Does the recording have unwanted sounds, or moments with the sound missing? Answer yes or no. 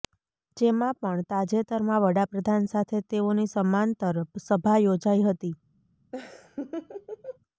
yes